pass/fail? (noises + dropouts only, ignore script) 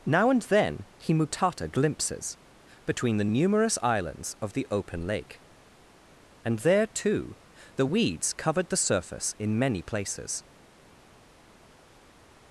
pass